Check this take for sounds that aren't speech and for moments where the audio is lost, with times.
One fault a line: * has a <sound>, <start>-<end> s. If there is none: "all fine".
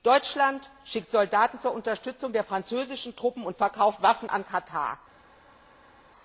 all fine